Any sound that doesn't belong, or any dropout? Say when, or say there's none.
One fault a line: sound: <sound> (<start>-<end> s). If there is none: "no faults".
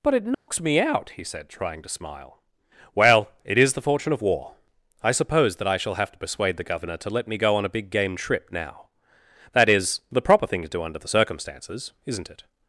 sound: dropout (0.3-0.5 s)